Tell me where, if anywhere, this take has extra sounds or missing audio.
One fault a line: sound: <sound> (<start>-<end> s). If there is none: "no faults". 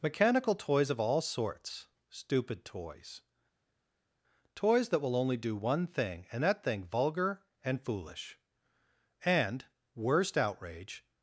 no faults